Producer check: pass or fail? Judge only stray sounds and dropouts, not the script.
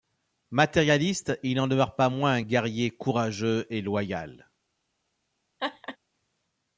fail